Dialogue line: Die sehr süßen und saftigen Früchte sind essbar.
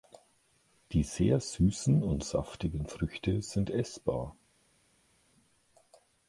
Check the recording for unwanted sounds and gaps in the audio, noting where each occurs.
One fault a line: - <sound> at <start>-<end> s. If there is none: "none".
none